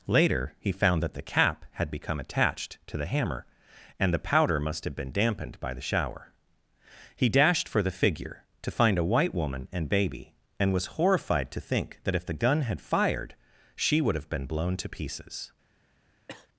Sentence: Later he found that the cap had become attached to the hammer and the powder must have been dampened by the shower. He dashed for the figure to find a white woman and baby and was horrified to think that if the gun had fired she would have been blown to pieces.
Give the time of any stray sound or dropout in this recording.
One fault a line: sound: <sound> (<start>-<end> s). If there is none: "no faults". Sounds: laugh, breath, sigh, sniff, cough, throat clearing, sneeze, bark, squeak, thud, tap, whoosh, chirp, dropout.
sound: cough (16.3-16.5 s)